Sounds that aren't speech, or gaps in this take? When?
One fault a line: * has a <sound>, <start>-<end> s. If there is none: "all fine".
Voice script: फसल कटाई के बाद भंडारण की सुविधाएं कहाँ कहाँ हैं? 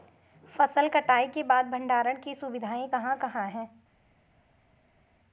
all fine